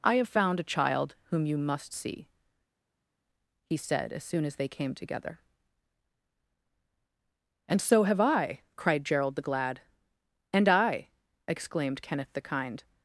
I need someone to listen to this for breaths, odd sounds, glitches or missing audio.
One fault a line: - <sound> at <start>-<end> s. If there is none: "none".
none